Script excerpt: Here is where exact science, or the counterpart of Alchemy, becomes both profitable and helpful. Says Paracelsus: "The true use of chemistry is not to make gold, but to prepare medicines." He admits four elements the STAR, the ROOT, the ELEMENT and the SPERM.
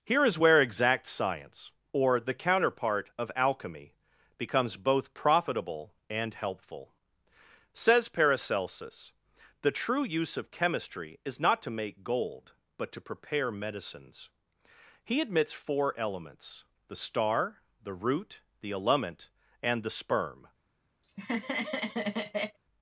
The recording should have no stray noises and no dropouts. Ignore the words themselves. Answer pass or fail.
fail